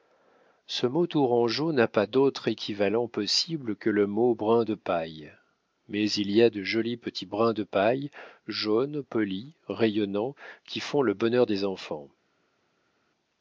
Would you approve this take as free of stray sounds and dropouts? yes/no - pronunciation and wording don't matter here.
yes